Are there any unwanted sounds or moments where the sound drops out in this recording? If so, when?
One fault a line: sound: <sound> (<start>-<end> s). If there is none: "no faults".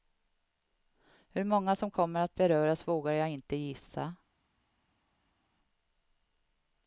no faults